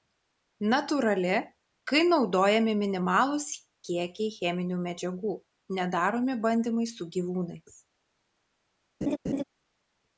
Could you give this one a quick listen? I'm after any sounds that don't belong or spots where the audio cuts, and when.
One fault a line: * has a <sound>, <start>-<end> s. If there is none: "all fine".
* has a laugh, 9.0-9.4 s